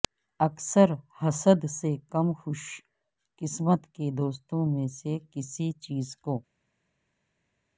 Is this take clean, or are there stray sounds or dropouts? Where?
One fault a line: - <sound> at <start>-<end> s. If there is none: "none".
none